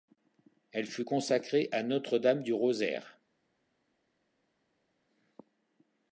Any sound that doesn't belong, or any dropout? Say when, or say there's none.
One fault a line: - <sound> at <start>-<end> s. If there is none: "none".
none